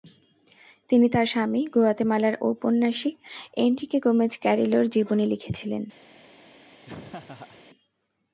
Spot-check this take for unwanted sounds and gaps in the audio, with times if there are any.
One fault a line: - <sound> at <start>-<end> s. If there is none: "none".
- laugh at 6.8-7.6 s